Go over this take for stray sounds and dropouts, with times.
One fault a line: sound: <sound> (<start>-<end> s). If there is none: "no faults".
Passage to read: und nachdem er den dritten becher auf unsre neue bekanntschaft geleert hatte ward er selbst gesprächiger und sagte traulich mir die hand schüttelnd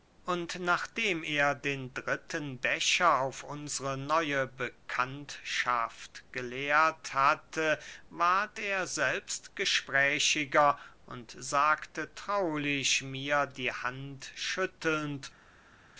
no faults